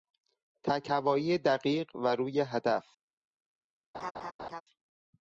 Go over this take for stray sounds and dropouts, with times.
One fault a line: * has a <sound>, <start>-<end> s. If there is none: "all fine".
* has a laugh, 3.9-4.6 s